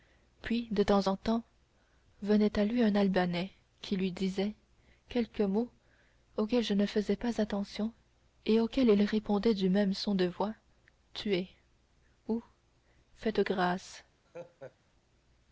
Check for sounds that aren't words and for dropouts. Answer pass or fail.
fail